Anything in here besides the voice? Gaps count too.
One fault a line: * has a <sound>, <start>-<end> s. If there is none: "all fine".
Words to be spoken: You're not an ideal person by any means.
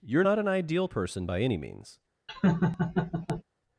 * has a laugh, 2.3-3.4 s